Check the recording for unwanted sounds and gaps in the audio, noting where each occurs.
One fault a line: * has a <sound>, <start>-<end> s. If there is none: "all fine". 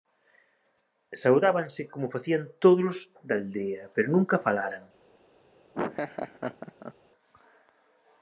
* has a laugh, 5.7-6.9 s